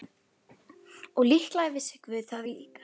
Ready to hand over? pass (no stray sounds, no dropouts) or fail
pass